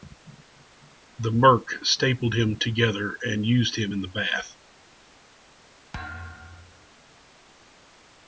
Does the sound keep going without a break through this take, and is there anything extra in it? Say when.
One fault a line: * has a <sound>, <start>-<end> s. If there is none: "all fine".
* has a thud, 5.9-6.9 s